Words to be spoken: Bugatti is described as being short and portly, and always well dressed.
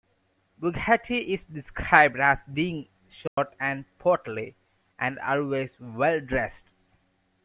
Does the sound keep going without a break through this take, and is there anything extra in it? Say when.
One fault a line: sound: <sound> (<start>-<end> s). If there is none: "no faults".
sound: dropout (3.3-3.4 s)